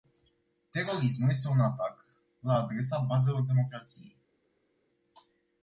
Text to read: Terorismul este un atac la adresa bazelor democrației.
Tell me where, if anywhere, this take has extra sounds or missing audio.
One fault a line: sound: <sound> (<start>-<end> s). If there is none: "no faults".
no faults